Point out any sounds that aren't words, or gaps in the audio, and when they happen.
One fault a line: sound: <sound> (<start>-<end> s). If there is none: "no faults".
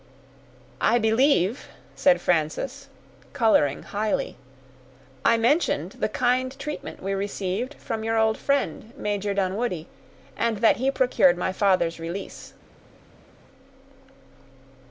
no faults